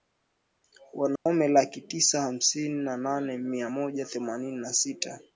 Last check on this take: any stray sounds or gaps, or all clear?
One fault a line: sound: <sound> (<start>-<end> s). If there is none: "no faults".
sound: dropout (1.2-1.3 s)